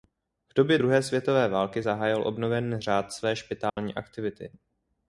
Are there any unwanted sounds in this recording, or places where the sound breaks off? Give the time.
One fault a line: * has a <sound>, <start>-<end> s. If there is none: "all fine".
* has a dropout, 3.7-3.8 s